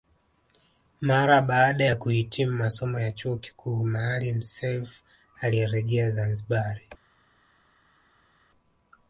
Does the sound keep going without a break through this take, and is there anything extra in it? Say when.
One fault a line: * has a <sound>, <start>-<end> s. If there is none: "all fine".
all fine